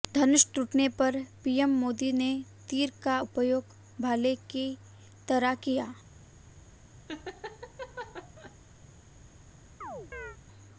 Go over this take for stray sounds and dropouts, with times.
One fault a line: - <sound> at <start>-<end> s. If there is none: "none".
- laugh at 7.1-8.6 s
- chirp at 9.8-10.4 s